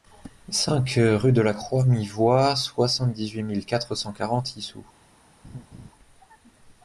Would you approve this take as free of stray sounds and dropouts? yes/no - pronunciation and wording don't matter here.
no